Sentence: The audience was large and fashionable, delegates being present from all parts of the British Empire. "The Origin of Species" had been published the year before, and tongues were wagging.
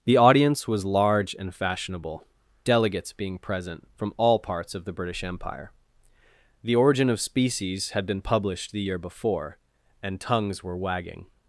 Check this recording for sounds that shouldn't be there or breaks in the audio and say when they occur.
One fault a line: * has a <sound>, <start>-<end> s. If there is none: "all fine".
all fine